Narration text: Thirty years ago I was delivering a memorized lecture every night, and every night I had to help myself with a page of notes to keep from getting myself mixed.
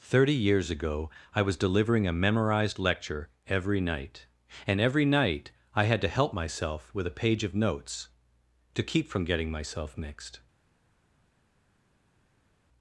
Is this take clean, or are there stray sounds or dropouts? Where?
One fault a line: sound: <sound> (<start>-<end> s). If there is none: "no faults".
no faults